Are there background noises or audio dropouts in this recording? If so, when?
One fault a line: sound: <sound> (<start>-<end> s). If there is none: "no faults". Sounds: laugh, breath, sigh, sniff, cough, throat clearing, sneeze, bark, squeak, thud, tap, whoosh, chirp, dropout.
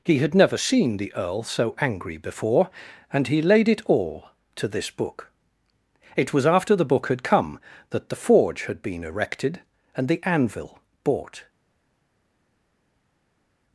no faults